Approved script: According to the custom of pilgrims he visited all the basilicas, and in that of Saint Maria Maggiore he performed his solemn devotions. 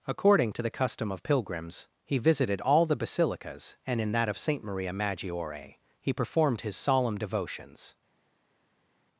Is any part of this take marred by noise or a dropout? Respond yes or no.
no